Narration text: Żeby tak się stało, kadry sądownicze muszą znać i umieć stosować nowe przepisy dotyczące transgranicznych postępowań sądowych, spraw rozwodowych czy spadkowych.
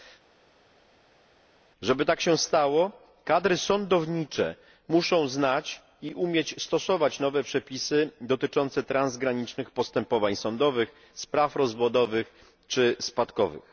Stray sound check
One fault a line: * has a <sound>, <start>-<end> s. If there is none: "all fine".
all fine